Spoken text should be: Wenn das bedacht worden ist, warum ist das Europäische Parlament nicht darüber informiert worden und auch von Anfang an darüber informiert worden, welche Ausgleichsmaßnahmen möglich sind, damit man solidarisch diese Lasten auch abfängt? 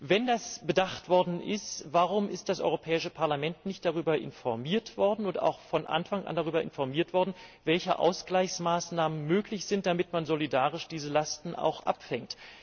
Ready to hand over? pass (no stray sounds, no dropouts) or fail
pass